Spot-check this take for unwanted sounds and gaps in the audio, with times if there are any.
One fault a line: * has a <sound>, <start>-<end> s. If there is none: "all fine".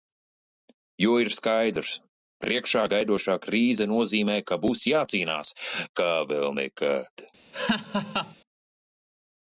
* has a laugh, 7.5-8.4 s